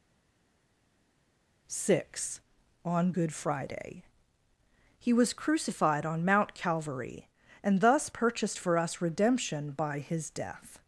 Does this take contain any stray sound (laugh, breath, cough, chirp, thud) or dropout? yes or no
no